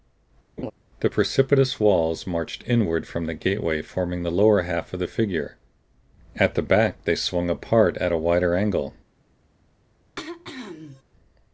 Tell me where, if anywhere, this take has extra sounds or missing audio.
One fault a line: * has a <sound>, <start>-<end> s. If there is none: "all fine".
* has a laugh, 0.6-0.7 s
* has a throat clearing, 10.2-11.0 s